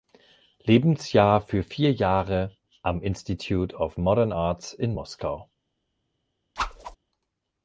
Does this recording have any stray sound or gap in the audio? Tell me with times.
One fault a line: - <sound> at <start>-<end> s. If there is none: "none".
- whoosh at 6.6-7.0 s